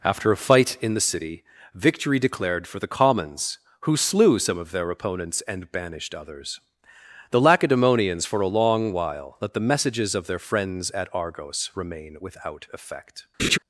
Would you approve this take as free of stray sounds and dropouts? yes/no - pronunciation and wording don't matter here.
no